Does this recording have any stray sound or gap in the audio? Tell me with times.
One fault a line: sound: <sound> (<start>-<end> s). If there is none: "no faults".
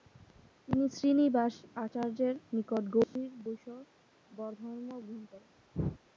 sound: dropout (3.0-3.2 s)